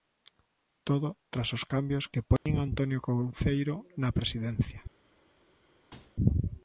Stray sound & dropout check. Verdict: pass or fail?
fail